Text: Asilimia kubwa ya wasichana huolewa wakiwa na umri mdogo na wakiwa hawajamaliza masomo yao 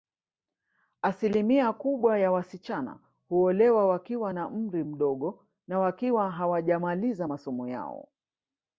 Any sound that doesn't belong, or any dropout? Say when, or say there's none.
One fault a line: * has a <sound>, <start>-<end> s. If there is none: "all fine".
all fine